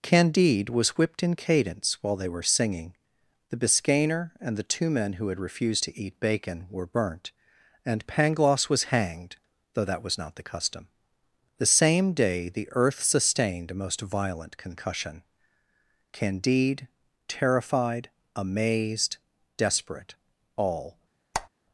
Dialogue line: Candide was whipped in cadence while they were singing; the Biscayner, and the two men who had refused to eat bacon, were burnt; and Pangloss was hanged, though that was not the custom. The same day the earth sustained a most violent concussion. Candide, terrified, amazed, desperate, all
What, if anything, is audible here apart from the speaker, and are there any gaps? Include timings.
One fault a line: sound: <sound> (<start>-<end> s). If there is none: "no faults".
sound: squeak (21.3-21.5 s)